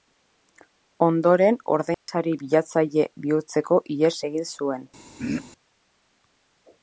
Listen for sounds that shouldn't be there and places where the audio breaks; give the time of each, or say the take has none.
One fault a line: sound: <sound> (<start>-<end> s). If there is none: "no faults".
sound: dropout (1.9-2.1 s)
sound: throat clearing (5.2-5.5 s)